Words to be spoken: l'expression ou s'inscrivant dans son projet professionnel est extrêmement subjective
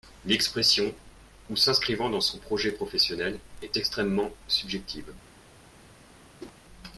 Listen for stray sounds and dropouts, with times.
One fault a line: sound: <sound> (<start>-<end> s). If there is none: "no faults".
sound: whoosh (6.4-6.6 s)